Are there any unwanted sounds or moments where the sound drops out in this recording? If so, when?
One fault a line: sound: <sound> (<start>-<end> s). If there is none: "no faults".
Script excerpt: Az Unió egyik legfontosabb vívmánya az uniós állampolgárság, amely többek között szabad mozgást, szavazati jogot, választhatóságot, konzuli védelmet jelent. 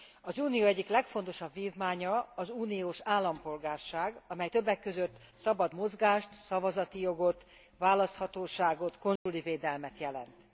sound: dropout (9.2-9.3 s)